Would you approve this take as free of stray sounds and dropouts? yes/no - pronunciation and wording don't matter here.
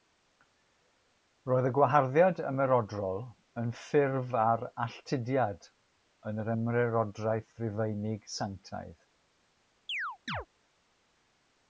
no